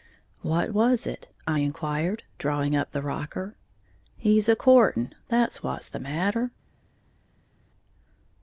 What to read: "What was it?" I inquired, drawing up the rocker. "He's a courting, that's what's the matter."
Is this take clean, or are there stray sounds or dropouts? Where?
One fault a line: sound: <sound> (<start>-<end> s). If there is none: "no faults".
no faults